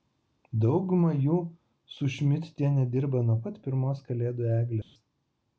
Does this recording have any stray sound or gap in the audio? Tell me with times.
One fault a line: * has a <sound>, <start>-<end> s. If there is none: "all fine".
* has a dropout, 4.8-5.0 s